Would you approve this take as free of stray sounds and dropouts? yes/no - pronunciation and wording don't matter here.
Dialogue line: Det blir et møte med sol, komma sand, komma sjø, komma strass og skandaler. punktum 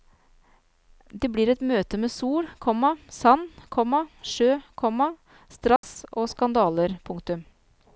no